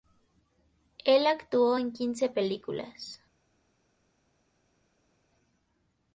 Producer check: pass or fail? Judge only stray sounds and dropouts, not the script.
pass